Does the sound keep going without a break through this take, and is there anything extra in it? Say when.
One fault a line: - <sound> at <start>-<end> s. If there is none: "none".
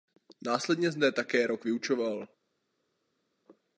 none